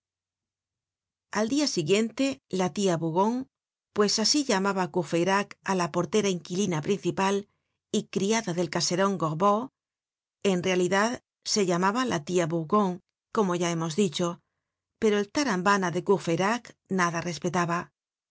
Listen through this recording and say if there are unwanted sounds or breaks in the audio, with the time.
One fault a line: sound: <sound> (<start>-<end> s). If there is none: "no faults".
no faults